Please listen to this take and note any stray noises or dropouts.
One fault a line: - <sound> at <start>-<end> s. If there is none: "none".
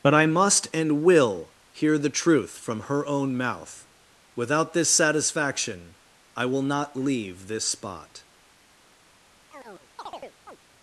- chirp at 9.5-10.6 s